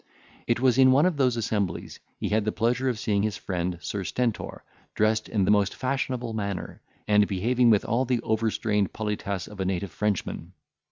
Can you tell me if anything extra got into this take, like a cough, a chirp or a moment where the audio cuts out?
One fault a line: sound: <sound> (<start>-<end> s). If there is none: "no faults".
no faults